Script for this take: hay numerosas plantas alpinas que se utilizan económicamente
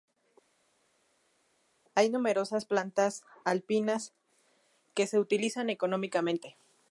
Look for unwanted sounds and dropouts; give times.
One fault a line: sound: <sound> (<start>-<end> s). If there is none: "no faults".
no faults